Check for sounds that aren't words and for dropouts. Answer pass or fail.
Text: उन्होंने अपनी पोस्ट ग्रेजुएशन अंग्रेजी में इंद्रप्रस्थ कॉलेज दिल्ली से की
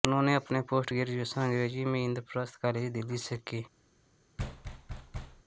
fail